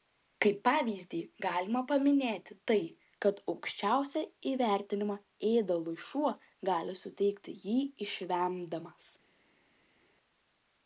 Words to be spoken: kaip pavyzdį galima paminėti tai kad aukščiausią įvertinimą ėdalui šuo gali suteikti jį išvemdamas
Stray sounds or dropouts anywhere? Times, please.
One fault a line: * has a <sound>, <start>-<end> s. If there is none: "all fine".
all fine